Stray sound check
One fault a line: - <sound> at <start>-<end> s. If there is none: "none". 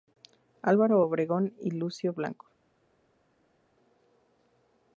none